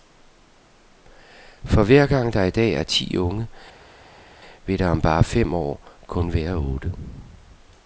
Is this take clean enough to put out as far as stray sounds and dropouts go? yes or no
yes